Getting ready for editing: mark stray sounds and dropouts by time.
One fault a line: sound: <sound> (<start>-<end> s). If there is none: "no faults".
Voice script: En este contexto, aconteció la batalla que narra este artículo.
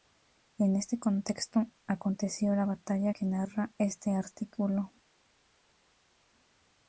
no faults